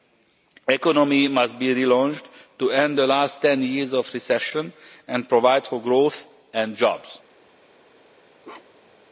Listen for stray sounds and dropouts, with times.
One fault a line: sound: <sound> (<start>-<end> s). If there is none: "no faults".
sound: bark (8.4-9.0 s)